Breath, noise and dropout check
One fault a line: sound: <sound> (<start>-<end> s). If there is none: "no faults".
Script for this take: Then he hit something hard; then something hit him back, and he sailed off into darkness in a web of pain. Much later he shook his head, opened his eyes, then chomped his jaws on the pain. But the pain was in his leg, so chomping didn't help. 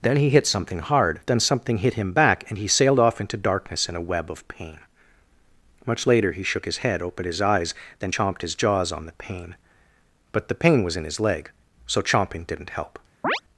sound: chirp (13.2-13.4 s)